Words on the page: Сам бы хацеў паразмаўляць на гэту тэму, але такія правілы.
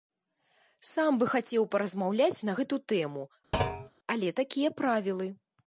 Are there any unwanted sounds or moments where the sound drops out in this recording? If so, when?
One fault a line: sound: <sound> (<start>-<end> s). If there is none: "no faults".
sound: thud (3.5-3.9 s)